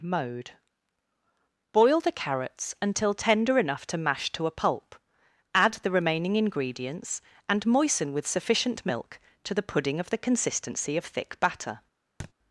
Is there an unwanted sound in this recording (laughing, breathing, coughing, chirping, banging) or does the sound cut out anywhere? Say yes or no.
yes